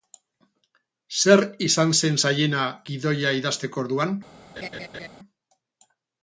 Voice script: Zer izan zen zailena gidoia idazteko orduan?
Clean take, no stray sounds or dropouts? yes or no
no